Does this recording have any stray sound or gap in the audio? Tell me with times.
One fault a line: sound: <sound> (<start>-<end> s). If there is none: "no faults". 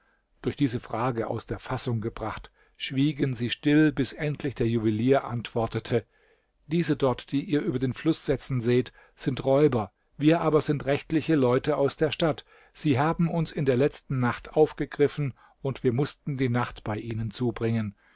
no faults